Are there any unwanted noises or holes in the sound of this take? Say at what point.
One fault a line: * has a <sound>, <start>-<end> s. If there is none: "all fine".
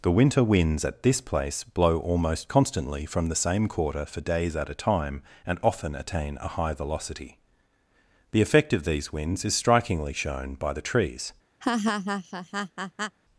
* has a laugh, 11.6-13.2 s